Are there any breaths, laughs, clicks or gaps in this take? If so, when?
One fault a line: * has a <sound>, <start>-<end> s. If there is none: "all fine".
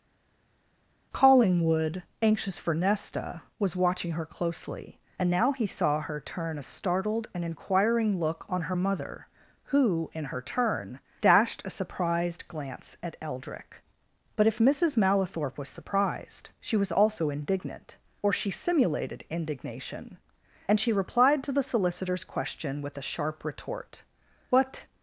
all fine